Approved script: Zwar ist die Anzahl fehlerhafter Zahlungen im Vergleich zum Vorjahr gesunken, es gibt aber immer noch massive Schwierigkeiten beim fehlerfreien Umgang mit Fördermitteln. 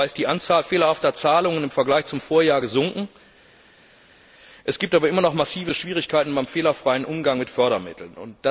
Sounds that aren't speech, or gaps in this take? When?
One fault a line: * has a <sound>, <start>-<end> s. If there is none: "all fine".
all fine